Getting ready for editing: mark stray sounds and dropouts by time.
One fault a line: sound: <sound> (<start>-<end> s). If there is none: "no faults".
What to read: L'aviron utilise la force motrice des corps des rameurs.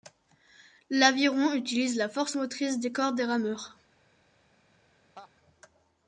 sound: laugh (5.2-5.3 s)